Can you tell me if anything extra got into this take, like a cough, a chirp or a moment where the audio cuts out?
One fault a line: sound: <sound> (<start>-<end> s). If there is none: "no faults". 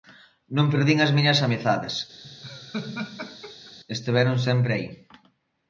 sound: laugh (2.2-3.8 s)